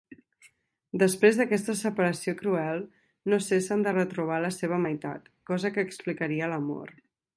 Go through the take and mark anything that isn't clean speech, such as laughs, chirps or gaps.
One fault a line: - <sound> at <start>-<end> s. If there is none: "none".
none